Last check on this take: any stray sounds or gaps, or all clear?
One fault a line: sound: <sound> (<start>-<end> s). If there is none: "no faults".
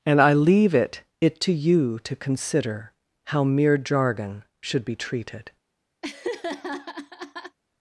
sound: laugh (6.0-7.6 s)